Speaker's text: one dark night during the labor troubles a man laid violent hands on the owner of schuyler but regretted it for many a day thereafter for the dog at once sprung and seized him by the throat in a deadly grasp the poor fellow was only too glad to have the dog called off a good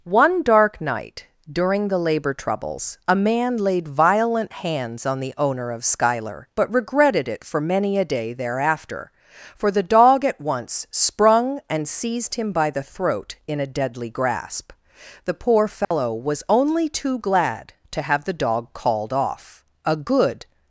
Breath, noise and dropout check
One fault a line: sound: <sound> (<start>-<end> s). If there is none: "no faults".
sound: dropout (15.8-15.9 s)